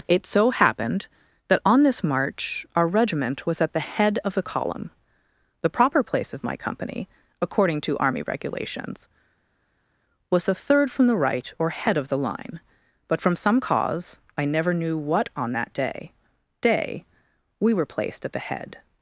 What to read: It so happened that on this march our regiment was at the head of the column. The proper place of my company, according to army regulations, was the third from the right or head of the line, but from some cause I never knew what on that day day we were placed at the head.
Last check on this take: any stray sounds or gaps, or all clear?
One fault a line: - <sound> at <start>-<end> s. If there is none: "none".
none